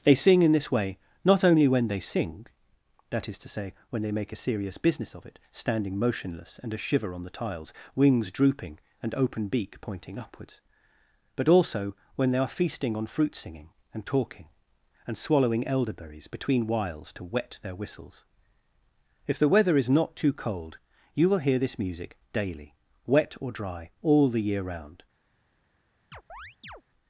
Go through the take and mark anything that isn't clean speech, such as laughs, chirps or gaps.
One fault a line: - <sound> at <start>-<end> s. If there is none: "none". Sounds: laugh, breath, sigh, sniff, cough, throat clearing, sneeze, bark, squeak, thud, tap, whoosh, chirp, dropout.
- chirp at 26.1-26.8 s